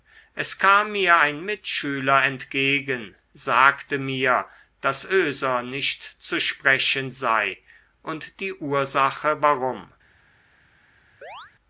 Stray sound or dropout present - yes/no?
yes